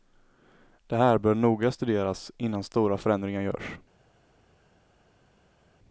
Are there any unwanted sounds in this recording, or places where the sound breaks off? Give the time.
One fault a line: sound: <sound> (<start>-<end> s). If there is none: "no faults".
no faults